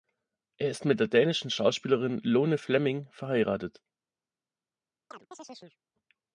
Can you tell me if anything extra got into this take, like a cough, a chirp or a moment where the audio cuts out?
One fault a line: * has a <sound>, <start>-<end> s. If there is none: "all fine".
* has a chirp, 5.1-5.8 s